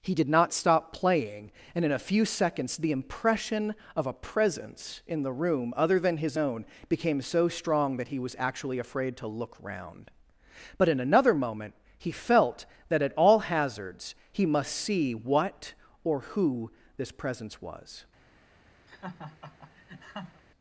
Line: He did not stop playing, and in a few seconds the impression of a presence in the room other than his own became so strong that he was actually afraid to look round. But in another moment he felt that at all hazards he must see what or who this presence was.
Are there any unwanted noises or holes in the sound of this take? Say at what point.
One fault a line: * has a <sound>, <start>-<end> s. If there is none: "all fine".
* has a laugh, 18.9-20.4 s